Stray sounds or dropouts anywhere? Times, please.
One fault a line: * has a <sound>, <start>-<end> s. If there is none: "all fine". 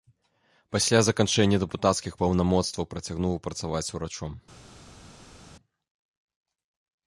all fine